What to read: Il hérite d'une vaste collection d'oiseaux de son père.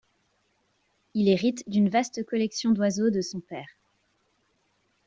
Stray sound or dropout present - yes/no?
no